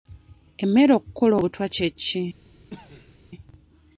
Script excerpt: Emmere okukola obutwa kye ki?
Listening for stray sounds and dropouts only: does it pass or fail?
fail